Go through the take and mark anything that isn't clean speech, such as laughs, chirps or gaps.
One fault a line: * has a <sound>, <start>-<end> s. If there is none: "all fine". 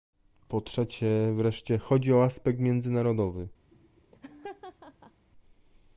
* has a laugh, 3.7-5.3 s